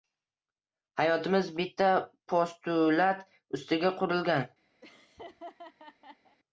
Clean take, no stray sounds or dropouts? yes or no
no